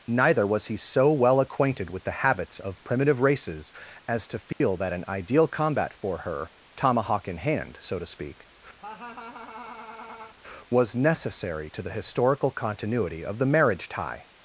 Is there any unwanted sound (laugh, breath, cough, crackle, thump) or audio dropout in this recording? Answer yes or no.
yes